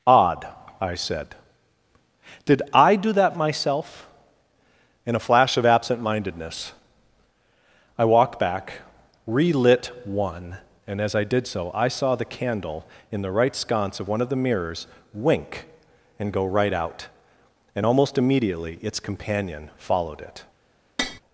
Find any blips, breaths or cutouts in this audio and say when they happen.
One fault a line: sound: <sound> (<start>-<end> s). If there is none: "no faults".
sound: tap (21.0-21.2 s)